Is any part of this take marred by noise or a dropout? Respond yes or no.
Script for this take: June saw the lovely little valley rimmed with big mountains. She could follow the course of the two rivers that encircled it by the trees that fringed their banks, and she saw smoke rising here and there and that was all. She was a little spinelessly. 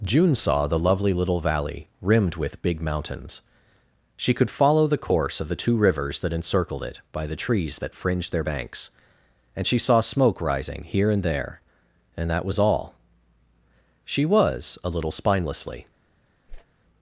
yes